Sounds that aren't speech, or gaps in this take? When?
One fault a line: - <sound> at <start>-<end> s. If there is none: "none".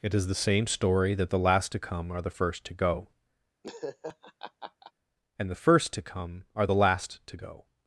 - laugh at 3.6-4.9 s